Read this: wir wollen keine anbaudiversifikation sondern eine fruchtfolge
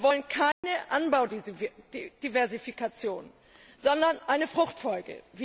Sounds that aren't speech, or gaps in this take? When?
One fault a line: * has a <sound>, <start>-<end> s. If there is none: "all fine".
* has a dropout, 0.5-0.6 s